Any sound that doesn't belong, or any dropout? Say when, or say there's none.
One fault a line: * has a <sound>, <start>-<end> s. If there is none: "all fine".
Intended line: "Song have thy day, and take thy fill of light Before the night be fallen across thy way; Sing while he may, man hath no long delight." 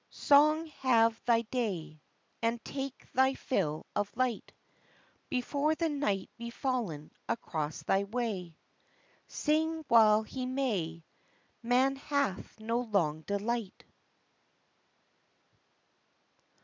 all fine